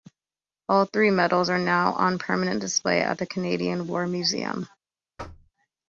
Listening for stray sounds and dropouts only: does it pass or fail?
fail